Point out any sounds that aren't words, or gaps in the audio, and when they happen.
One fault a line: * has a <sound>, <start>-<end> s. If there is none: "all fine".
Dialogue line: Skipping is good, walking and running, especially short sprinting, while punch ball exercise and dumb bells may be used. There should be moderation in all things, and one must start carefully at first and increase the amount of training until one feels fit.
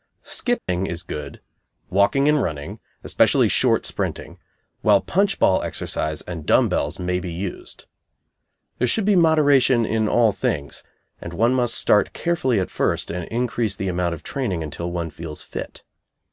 * has a dropout, 0.6-0.7 s